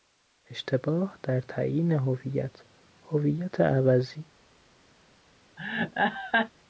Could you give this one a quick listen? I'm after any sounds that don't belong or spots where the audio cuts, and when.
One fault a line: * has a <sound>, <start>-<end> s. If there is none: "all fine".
* has a laugh, 5.6-6.5 s